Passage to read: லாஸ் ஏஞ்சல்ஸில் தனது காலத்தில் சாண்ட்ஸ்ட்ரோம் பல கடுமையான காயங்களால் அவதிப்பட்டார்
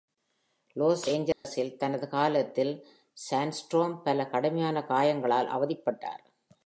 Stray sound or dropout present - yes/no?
yes